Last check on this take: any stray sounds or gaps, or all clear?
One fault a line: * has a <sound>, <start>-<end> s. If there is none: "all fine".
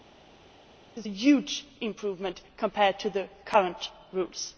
all fine